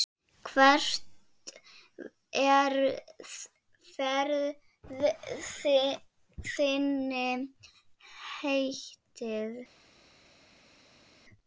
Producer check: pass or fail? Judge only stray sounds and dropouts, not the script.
pass